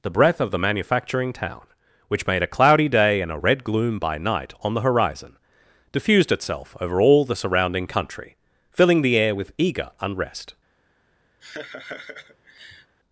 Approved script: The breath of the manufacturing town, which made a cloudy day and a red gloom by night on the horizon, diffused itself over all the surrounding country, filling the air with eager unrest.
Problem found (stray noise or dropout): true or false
true